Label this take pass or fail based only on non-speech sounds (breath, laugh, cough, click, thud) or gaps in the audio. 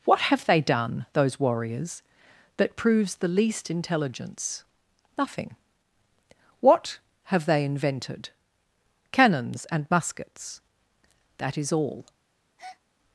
fail